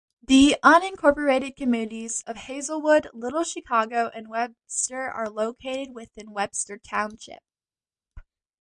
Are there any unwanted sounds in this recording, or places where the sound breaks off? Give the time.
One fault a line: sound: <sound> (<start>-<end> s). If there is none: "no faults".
no faults